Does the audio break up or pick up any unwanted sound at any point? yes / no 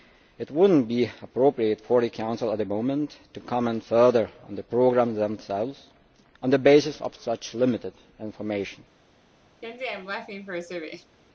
yes